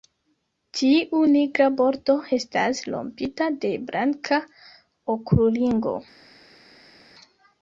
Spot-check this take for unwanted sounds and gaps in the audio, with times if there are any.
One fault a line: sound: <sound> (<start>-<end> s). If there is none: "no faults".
no faults